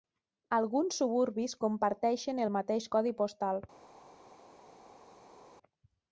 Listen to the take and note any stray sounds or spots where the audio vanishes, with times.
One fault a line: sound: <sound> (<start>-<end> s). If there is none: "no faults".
no faults